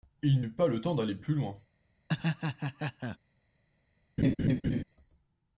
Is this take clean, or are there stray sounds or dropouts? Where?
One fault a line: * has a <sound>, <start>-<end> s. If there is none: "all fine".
* has a laugh, 2.1-3.2 s
* has a laugh, 4.2-4.8 s